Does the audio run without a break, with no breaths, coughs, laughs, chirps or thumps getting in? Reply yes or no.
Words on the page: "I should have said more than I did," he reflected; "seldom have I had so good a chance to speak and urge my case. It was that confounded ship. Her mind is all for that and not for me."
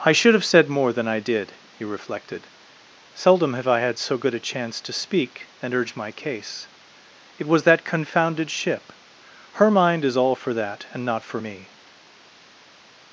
yes